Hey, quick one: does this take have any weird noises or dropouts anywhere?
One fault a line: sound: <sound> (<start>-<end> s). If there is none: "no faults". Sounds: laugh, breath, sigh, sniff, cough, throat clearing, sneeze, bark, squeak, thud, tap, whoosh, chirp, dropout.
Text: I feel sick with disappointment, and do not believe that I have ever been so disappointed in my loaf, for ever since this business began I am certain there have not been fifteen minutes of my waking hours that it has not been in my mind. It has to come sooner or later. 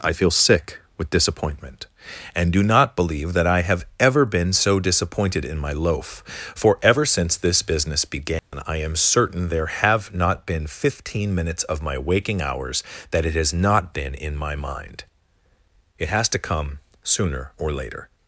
sound: dropout (8.4-8.5 s)